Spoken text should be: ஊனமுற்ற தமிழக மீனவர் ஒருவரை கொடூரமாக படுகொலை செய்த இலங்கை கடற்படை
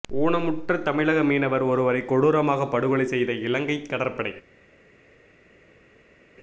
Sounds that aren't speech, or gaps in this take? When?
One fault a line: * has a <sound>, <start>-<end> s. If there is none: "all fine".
all fine